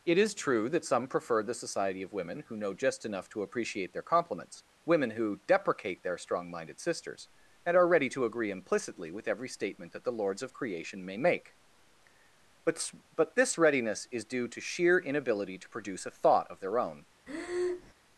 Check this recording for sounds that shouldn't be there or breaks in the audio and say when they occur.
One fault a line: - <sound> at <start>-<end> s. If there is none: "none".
- breath at 17.3-17.9 s